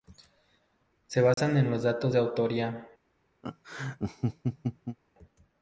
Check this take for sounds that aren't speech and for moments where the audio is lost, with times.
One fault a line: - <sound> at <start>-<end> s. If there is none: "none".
- dropout at 1.3-1.4 s
- laugh at 3.4-5.0 s